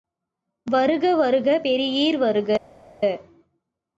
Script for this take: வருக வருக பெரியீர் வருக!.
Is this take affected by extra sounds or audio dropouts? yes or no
no